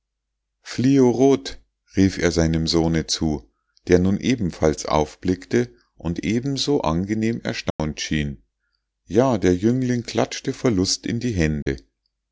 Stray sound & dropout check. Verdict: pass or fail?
fail